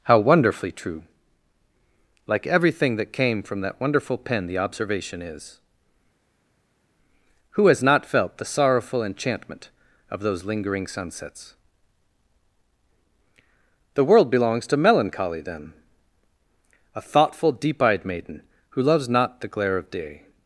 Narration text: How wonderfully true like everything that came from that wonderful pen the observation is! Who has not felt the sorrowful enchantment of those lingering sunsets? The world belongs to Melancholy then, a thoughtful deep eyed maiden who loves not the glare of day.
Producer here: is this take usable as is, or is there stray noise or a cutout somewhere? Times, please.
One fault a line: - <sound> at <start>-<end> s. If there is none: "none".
none